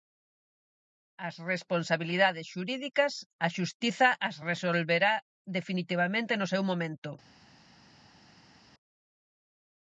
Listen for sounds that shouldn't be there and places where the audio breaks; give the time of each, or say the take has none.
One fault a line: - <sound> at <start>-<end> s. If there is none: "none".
none